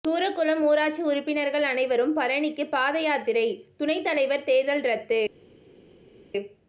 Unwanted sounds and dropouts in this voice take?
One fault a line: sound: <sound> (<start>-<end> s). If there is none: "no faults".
no faults